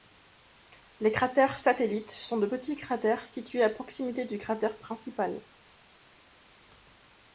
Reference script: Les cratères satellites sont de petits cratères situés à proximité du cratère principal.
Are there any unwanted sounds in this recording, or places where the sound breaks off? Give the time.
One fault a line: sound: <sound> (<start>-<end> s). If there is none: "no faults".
no faults